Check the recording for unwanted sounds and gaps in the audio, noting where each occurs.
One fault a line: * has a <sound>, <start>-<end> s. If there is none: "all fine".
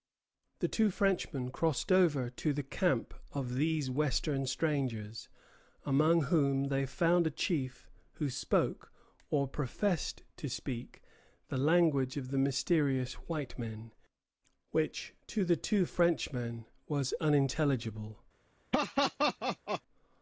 * has a laugh, 18.7-19.8 s